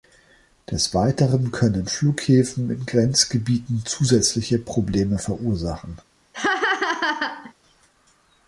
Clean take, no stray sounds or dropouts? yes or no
no